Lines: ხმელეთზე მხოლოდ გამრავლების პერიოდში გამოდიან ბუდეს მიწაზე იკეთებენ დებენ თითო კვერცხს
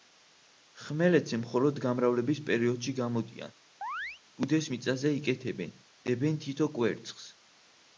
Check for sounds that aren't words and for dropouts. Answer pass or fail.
fail